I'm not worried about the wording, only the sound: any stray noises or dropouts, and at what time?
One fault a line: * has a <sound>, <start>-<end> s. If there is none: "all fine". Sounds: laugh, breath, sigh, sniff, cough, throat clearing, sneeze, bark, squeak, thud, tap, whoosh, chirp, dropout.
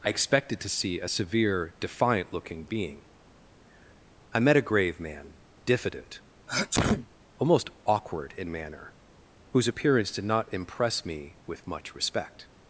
* has a sneeze, 6.5-7.1 s